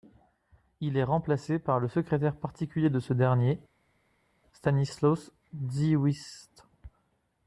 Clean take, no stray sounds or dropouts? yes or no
yes